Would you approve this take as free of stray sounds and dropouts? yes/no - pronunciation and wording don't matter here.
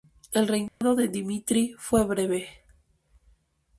no